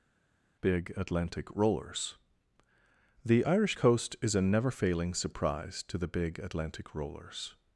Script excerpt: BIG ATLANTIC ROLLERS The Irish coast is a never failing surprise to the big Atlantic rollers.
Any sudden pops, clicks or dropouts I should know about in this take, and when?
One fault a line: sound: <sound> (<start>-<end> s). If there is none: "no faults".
no faults